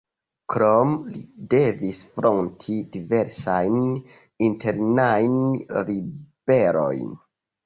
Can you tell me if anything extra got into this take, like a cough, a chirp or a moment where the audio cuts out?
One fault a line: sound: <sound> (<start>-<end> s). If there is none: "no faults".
no faults